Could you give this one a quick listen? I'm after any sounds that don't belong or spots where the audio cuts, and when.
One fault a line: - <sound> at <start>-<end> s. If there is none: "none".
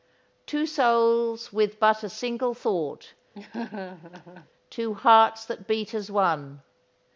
- laugh at 3.3-4.5 s